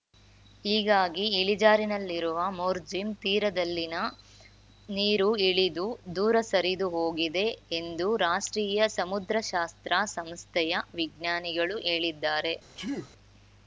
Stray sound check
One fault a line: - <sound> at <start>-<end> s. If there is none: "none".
- sneeze at 12.8-13.1 s